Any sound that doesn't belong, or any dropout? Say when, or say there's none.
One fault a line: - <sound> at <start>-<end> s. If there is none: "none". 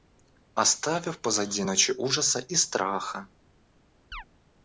- chirp at 4.1-4.2 s